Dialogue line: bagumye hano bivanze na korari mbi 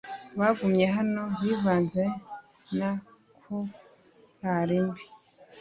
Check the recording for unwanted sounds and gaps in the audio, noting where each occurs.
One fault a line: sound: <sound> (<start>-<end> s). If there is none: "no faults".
no faults